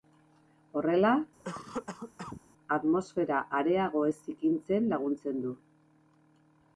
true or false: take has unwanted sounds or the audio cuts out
true